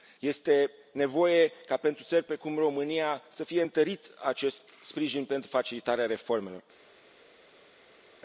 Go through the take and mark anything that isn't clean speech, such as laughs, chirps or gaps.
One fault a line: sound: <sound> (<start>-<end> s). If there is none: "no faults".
no faults